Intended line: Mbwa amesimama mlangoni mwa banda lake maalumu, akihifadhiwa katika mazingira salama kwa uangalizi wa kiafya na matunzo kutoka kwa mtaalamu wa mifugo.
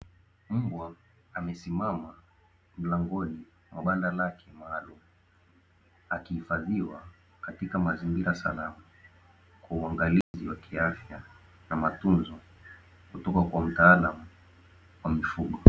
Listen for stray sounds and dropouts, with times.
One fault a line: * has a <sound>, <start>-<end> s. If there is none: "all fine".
* has a dropout, 10.2-10.3 s